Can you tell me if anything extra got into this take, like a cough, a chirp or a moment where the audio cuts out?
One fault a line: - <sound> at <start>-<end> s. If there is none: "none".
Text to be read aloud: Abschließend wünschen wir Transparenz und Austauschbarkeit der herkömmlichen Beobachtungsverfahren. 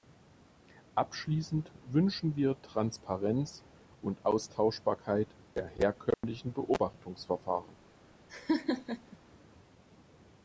- dropout at 6.1-6.2 s
- laugh at 8.3-9.2 s